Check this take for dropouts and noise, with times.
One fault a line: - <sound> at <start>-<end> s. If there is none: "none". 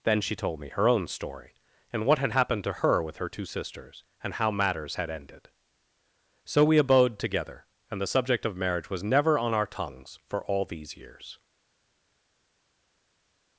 none